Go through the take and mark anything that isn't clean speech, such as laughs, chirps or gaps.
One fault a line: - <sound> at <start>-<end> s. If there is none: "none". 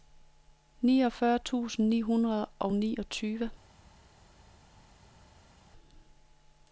none